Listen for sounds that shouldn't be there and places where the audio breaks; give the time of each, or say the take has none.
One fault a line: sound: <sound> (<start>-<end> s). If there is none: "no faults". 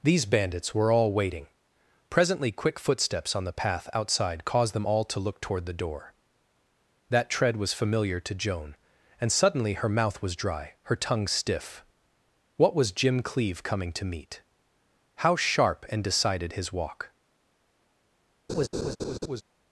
sound: laugh (18.5-19.4 s)